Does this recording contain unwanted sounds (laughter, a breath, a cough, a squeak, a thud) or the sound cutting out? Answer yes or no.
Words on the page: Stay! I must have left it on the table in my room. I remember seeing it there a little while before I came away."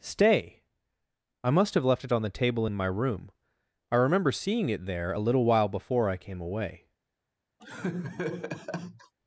yes